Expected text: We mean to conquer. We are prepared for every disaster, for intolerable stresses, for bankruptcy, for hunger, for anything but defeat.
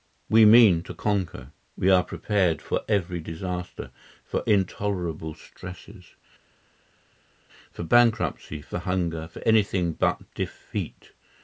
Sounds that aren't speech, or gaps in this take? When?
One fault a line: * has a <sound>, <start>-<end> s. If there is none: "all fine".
all fine